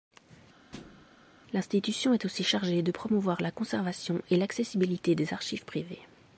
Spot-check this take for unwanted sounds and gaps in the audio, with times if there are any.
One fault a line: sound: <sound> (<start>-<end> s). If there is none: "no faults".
sound: thud (0.7-1.1 s)